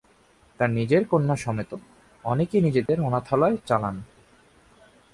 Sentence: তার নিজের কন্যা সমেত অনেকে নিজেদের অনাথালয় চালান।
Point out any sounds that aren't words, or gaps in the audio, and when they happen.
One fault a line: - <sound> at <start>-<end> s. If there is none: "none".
- dropout at 2.9-2.9 s